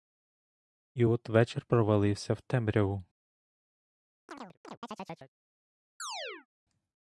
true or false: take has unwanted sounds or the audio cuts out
true